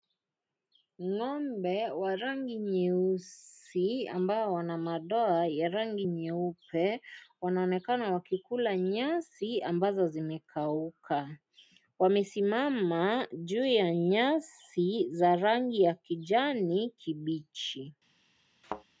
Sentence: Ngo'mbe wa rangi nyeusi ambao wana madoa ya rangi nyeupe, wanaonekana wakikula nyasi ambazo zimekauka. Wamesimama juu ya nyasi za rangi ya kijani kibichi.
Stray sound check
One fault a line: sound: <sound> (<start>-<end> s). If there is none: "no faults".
sound: thud (18.6-18.8 s)